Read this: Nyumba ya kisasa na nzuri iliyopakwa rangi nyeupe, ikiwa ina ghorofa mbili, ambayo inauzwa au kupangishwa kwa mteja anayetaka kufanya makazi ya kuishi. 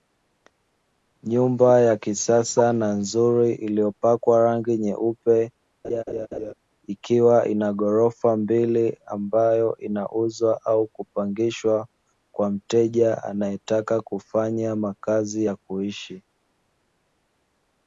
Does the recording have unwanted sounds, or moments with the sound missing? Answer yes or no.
yes